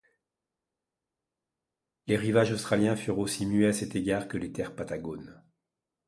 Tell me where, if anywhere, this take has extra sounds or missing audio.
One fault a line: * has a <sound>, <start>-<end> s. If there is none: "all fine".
all fine